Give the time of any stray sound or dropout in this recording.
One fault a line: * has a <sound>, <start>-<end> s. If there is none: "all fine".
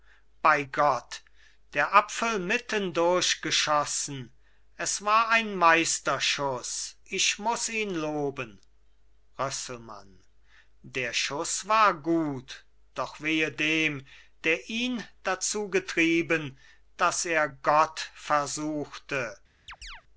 * has a chirp, 19.7-20.0 s